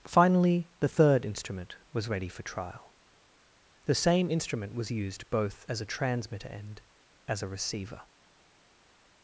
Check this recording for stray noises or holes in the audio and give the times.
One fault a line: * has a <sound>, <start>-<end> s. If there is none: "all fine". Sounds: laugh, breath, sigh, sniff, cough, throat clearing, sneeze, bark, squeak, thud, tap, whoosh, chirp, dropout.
all fine